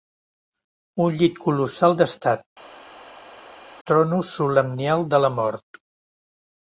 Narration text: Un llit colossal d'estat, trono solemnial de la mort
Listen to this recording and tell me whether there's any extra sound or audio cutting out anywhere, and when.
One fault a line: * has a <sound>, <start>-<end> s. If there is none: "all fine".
all fine